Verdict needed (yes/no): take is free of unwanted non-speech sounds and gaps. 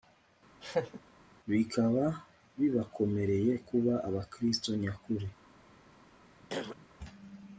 no